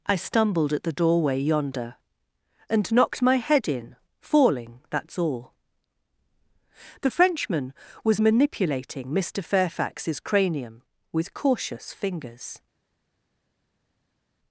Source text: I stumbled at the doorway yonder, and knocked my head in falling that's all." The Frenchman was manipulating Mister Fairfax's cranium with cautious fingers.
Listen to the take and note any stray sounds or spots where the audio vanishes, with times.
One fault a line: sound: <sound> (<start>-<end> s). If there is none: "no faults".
no faults